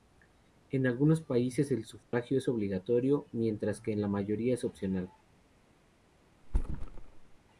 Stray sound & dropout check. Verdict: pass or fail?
fail